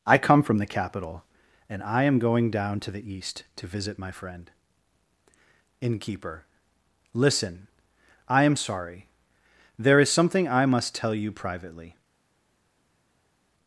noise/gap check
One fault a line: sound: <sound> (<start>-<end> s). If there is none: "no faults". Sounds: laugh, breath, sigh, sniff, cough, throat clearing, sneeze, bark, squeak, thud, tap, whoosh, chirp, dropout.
no faults